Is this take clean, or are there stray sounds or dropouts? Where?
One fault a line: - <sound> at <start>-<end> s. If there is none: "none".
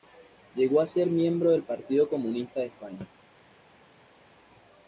none